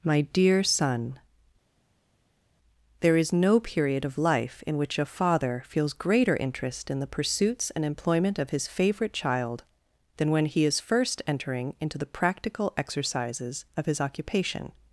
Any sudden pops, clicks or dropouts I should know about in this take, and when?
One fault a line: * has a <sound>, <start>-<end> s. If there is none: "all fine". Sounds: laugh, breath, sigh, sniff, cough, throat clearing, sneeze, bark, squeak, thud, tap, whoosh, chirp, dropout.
all fine